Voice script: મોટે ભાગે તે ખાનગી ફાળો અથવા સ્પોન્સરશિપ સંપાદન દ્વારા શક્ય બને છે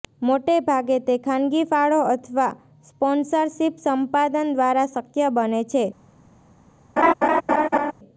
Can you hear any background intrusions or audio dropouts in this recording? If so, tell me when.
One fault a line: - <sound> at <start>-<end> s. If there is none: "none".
- laugh at 7.0-7.9 s